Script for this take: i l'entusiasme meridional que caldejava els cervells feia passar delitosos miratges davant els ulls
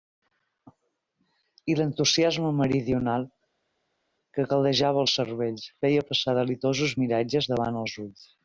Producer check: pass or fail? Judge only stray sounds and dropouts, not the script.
pass